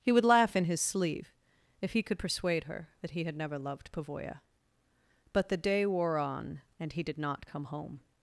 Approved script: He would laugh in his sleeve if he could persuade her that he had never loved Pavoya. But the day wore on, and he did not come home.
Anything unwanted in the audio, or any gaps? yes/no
no